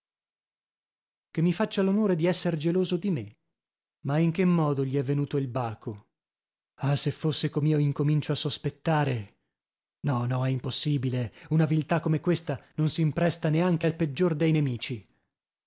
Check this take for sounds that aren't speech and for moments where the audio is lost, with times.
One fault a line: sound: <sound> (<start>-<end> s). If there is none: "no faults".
no faults